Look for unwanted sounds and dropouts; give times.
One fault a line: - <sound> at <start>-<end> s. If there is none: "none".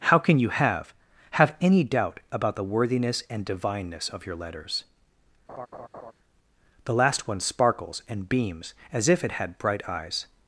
- laugh at 5.5-6.1 s